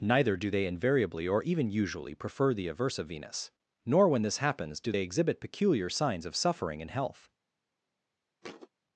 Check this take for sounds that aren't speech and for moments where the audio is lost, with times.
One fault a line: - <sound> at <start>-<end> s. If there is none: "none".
- thud at 8.4-8.7 s